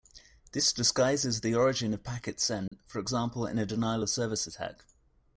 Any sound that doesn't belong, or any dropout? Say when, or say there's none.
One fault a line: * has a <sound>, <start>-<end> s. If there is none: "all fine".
* has a dropout, 2.7-2.7 s